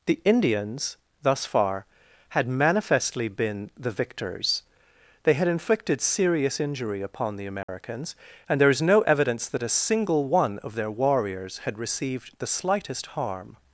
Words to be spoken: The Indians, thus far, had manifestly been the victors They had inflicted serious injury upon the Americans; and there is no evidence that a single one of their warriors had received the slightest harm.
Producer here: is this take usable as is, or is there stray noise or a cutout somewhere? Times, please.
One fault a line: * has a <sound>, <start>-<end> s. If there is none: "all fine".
* has a dropout, 7.6-7.7 s